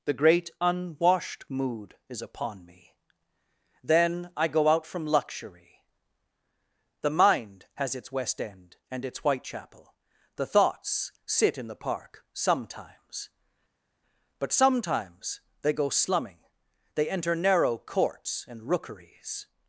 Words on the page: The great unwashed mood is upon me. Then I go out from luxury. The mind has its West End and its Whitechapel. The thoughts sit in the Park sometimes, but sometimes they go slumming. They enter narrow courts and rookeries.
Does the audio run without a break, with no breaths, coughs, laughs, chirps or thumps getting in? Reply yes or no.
yes